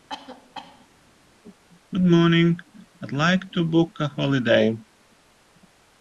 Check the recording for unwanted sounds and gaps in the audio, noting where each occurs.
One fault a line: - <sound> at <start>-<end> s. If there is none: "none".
- cough at 0.1-0.9 s